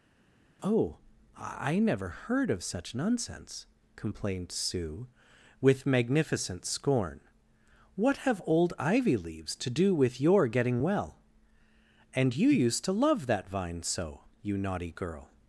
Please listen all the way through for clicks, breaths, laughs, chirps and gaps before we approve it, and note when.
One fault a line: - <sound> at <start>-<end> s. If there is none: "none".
none